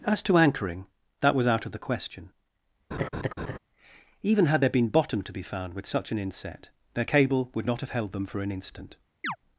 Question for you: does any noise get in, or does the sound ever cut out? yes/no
yes